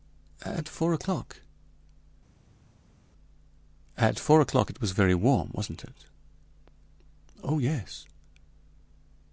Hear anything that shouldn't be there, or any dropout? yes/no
no